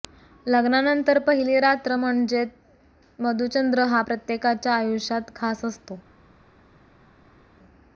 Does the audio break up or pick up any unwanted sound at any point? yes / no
no